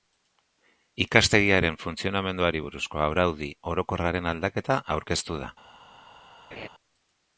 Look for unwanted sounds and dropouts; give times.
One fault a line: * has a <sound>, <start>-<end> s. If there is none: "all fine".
* has a laugh, 6.5-6.7 s